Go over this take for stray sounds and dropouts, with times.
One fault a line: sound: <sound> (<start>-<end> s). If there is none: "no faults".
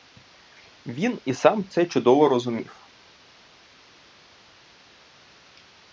no faults